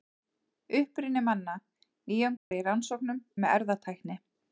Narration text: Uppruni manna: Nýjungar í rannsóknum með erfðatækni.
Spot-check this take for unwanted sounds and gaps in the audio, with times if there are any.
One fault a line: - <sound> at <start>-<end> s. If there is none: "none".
- dropout at 2.4-2.5 s